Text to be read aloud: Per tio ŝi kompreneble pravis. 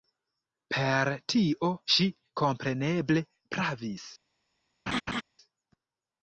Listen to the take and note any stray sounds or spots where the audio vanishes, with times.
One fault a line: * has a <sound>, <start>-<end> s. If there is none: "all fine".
* has a laugh, 4.9-5.2 s